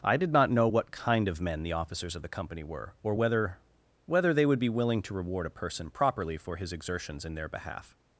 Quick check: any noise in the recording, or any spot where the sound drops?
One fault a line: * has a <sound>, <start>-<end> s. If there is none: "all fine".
all fine